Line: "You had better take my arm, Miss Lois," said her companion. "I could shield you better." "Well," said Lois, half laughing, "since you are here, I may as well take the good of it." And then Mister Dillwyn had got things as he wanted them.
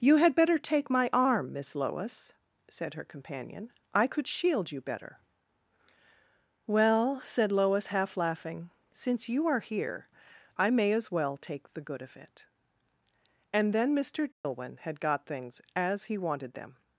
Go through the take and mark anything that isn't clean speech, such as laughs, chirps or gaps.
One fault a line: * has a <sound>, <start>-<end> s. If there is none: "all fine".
* has a dropout, 14.3-14.4 s